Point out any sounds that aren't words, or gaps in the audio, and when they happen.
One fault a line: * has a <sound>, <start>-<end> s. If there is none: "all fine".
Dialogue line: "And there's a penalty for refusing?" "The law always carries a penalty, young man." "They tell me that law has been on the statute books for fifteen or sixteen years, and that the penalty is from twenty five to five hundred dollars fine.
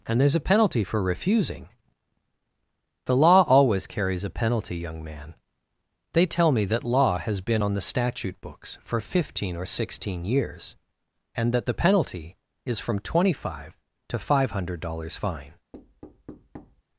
* has a thud, 15.7-16.8 s